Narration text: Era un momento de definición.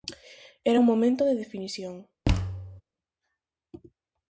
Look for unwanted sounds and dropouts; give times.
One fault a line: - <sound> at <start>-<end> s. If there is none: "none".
- thud at 2.2-2.8 s